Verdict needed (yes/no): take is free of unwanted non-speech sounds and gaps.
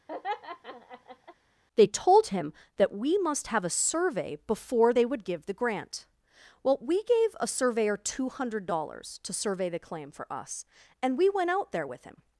no